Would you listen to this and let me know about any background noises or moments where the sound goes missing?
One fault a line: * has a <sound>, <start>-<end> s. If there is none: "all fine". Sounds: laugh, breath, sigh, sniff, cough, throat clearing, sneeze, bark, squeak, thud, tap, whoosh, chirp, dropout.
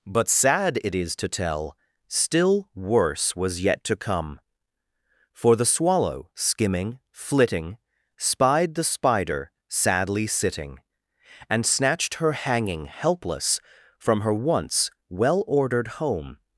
all fine